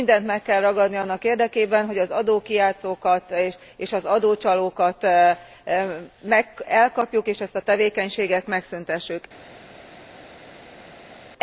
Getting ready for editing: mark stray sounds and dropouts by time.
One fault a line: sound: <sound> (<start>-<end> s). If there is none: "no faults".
no faults